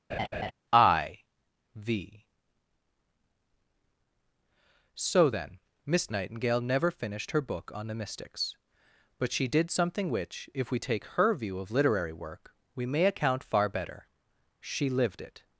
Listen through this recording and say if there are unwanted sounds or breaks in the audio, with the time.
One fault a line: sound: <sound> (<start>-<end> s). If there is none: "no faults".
sound: laugh (0.1-0.5 s)